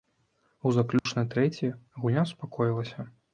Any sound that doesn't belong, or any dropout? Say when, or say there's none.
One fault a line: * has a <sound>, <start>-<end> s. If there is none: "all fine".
* has a dropout, 1.0-1.1 s